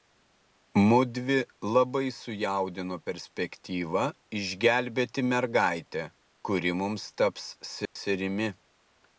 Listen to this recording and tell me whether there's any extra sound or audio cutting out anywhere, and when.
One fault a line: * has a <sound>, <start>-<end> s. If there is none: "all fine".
* has a dropout, 7.8-8.0 s